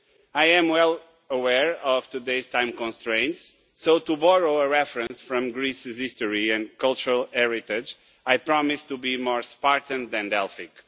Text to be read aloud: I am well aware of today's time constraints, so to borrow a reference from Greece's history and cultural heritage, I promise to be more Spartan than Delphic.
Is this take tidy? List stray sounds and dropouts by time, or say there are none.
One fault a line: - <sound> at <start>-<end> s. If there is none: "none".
- dropout at 5.1-5.1 s